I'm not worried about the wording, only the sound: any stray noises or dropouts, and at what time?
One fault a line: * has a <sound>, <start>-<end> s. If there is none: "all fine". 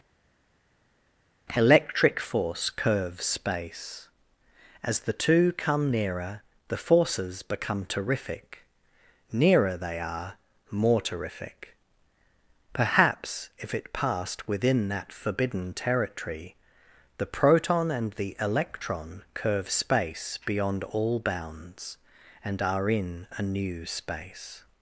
all fine